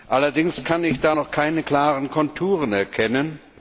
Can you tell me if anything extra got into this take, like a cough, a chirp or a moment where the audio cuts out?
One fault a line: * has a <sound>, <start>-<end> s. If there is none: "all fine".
all fine